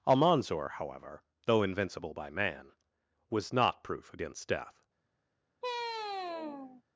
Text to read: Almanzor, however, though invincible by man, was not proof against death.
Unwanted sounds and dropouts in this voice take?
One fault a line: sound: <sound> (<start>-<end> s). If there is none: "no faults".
sound: sigh (5.6-6.8 s)